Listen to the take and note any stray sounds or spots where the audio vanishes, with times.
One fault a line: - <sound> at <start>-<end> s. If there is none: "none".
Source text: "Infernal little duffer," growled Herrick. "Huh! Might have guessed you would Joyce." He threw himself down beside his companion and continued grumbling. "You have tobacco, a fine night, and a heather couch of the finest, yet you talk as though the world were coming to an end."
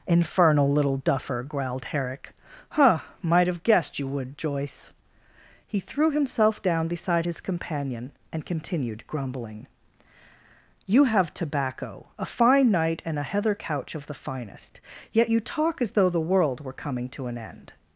none